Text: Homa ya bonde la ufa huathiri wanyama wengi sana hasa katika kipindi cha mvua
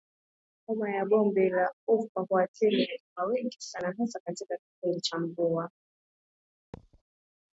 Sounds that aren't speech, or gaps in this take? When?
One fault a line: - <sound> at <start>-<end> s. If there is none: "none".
- thud at 6.7-7.0 s